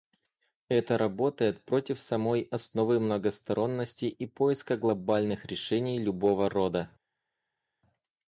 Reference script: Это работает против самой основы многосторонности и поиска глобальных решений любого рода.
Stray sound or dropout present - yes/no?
no